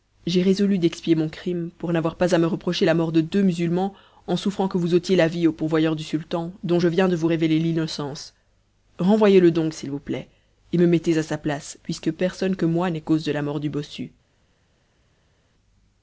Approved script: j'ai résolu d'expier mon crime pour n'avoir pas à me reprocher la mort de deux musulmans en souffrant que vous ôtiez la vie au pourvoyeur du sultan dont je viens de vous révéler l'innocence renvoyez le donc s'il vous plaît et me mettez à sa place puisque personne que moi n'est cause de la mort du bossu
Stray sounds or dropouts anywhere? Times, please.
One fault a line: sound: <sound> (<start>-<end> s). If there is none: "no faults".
no faults